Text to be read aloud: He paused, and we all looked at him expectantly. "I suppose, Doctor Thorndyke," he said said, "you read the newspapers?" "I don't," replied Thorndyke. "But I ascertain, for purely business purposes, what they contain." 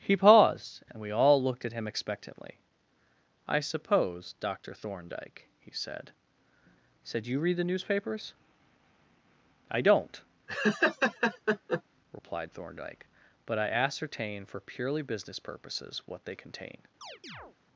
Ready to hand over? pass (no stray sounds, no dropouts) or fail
fail